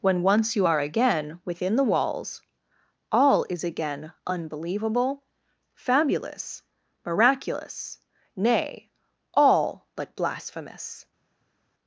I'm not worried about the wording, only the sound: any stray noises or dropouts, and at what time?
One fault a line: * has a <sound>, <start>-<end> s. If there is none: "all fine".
all fine